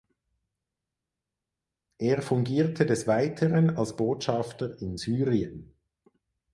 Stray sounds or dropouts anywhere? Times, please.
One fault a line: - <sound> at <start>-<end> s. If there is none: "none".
none